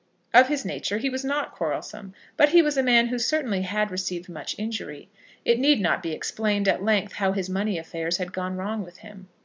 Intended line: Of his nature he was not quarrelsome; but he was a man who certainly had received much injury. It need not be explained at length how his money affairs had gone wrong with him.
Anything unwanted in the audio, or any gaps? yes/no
no